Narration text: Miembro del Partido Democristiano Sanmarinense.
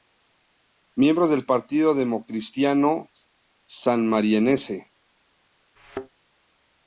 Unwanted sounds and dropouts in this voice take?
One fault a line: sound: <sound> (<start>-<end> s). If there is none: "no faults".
sound: thud (5.8-6.1 s)